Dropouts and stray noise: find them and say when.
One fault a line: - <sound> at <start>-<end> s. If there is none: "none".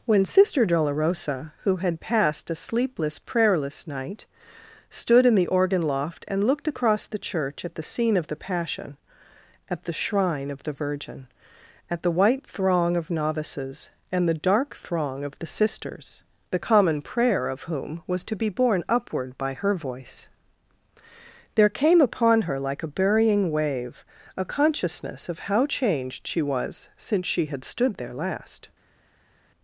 none